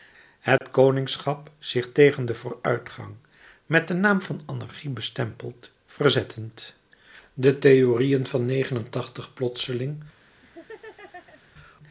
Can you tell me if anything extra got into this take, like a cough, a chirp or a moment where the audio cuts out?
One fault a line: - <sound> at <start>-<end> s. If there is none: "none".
- dropout at 0.6-0.6 s
- laugh at 10.4-11.4 s